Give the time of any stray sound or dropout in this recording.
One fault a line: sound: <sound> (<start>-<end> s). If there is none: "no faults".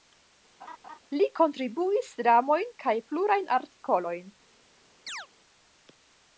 sound: laugh (0.6-1.0 s)
sound: chirp (5.1-5.3 s)